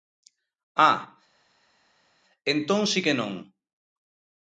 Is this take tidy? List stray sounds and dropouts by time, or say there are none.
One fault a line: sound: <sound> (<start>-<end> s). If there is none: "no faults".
no faults